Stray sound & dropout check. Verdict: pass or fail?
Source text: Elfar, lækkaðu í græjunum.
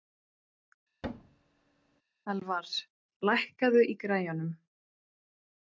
fail